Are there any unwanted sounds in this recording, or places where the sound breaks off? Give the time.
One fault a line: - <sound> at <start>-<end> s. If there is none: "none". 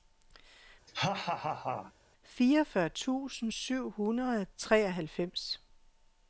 - laugh at 0.9-1.9 s